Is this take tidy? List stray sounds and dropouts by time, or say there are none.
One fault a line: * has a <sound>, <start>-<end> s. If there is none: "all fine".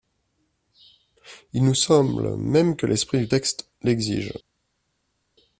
all fine